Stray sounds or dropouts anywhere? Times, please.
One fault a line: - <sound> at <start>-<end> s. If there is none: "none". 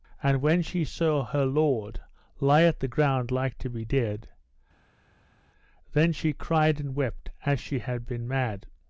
none